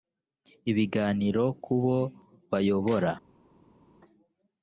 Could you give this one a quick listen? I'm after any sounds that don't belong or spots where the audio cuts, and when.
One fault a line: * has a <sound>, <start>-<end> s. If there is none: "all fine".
all fine